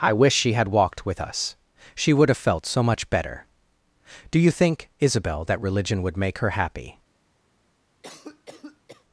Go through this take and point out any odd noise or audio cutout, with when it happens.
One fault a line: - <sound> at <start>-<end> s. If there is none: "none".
- cough at 8.0-9.0 s